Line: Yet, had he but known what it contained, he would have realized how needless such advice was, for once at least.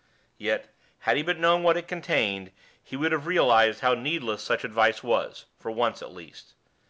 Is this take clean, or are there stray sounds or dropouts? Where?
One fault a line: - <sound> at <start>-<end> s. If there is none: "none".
none